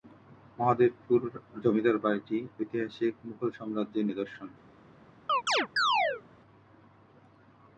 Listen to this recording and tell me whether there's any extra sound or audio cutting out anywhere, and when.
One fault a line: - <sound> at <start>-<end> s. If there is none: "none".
- chirp at 5.3-6.2 s